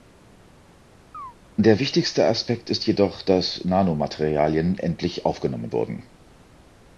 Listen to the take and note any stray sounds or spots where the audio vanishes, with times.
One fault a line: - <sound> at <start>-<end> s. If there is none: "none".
- chirp at 1.1-1.3 s